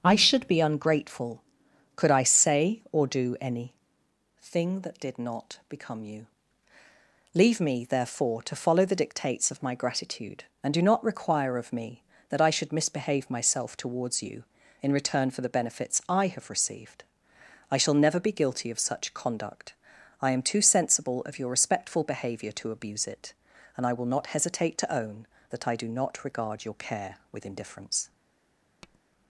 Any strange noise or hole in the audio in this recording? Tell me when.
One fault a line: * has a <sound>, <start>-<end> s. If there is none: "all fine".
* has a tap, 28.8-29.0 s